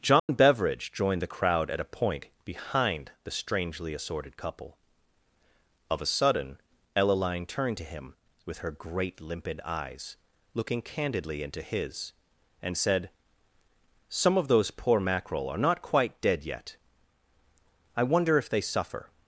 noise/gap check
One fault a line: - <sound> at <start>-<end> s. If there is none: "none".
- dropout at 0.2-0.3 s